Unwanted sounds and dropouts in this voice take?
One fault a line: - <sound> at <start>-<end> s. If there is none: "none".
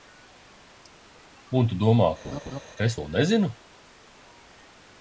- laugh at 2.2-2.6 s